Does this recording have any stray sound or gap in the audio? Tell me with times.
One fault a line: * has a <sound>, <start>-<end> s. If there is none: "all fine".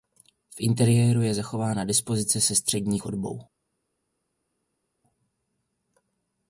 all fine